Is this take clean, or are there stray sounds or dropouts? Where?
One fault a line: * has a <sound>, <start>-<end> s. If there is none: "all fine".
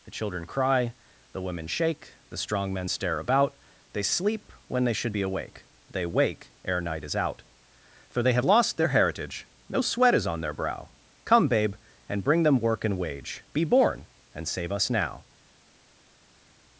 all fine